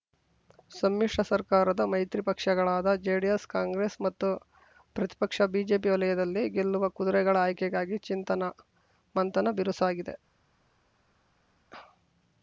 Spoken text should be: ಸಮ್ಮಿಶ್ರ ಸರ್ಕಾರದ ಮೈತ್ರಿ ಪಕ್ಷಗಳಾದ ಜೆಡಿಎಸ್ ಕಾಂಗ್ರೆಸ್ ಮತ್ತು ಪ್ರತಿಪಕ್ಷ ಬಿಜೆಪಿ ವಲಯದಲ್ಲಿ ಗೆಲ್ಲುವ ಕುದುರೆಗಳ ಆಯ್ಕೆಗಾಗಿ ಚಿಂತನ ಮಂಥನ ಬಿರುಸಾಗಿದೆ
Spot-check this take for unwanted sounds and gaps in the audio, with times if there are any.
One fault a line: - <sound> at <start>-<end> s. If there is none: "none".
none